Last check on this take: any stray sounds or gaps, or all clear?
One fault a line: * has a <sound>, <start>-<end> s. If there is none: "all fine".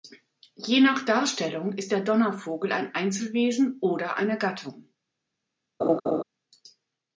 * has a laugh, 5.8-6.2 s